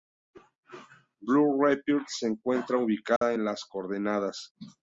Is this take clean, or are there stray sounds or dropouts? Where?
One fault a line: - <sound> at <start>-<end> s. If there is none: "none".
- dropout at 3.2-3.2 s